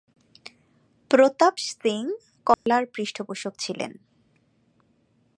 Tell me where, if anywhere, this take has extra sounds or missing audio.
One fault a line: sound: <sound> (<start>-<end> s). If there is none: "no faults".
sound: dropout (2.5-2.7 s)